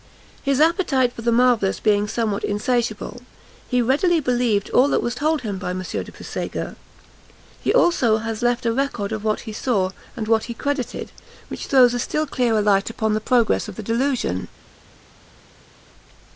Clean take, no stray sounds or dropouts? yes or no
yes